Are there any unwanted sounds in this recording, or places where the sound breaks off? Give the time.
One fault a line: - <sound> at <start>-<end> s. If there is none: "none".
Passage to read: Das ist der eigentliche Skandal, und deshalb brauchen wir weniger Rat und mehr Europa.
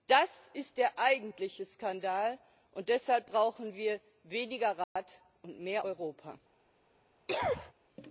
- dropout at 4.8-5.0 s
- cough at 7.3-7.7 s